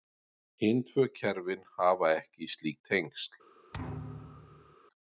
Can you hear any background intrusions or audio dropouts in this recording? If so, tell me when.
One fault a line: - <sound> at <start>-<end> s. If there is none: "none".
- thud at 3.7-4.8 s